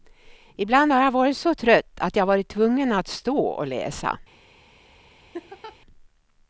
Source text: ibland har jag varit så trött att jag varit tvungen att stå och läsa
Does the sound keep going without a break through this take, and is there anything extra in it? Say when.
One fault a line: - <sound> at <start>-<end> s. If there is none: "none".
- laugh at 5.3-5.8 s